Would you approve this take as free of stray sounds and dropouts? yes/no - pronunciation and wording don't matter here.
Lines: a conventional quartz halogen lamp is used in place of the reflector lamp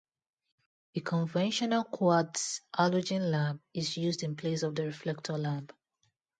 yes